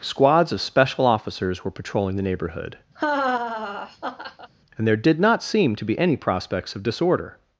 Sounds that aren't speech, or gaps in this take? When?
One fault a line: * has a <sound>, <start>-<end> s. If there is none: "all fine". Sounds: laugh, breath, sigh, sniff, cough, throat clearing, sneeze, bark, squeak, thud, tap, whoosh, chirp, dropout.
* has a laugh, 3.0-4.5 s